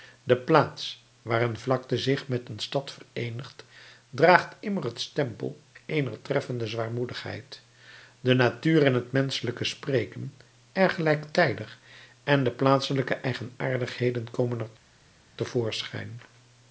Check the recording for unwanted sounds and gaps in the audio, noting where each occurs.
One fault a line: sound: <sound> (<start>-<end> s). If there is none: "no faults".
no faults